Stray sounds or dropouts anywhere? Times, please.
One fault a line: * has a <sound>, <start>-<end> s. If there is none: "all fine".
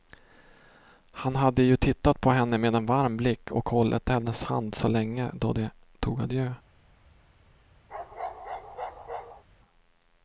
* has a bark, 7.9-9.4 s